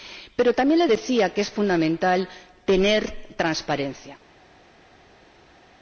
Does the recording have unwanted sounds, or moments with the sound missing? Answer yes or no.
no